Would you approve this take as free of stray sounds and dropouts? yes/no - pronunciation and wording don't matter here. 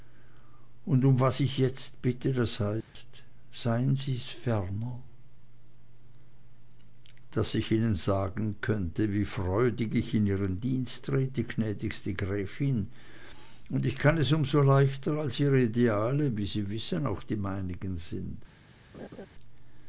no